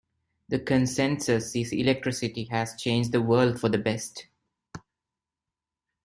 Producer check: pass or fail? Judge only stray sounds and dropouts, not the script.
pass